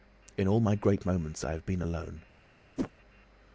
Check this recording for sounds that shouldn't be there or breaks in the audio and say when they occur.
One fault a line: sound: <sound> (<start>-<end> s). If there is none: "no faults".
sound: whoosh (2.8-2.9 s)